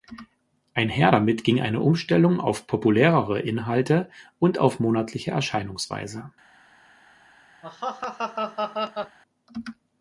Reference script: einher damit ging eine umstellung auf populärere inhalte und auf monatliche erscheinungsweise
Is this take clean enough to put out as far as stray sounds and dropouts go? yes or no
no